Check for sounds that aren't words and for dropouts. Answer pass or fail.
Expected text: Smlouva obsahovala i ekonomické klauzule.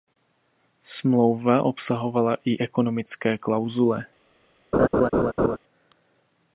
fail